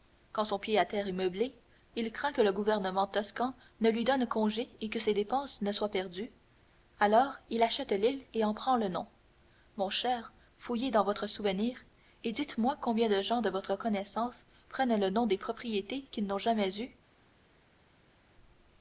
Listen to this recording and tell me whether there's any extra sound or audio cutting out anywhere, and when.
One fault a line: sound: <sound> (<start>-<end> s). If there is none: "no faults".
no faults